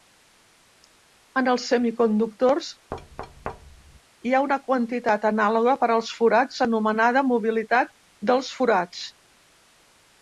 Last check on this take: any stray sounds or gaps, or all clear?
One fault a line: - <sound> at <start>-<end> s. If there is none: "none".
- thud at 2.9-4.0 s